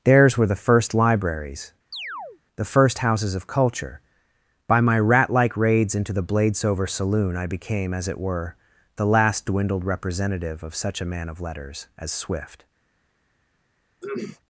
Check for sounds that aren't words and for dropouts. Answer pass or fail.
fail